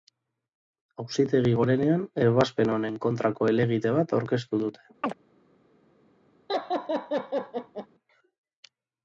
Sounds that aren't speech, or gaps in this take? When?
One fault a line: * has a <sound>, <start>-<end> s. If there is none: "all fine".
* has a chirp, 5.0-5.1 s
* has a laugh, 6.5-7.9 s